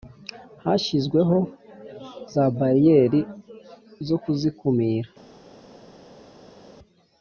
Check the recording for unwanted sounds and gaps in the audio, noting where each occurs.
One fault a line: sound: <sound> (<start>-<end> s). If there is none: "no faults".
no faults